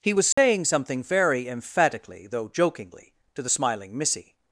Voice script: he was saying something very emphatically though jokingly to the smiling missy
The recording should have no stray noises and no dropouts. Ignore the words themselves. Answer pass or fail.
fail